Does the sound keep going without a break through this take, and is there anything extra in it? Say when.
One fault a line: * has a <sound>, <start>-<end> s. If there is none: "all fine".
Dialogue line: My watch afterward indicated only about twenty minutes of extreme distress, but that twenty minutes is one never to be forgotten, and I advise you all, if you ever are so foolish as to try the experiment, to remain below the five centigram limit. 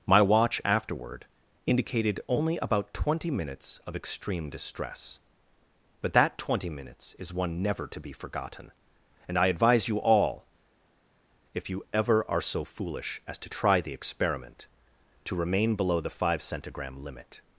all fine